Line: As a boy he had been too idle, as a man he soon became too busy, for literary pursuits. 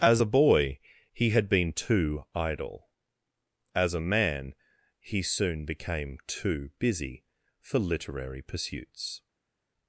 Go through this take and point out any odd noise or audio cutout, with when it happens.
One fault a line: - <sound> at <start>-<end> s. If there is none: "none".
none